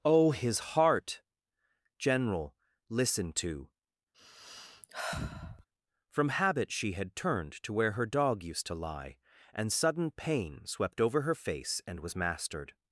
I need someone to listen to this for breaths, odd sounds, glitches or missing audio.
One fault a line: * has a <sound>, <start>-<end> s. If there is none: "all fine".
* has a sigh, 4.1-5.7 s